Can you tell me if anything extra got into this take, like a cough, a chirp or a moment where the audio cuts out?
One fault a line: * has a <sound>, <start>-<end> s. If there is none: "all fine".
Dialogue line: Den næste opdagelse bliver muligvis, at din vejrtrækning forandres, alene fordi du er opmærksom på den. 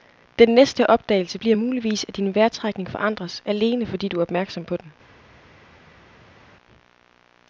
all fine